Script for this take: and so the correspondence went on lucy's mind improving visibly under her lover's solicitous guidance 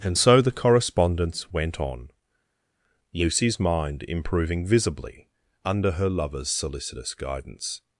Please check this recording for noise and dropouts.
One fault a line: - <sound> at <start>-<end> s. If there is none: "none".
none